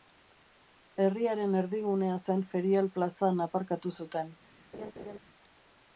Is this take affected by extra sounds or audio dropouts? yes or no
yes